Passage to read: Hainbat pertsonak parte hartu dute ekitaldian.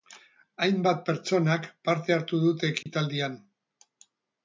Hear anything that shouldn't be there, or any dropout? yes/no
yes